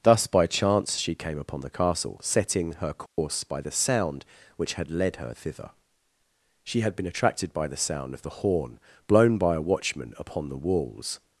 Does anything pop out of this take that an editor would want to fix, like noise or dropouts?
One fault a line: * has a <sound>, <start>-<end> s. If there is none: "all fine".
* has a dropout, 3.1-3.2 s